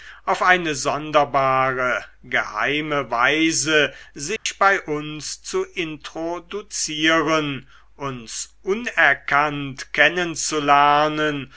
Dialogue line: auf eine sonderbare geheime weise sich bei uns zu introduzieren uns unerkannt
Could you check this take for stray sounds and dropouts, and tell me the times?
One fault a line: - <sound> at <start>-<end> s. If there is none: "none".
- dropout at 4.4-4.5 s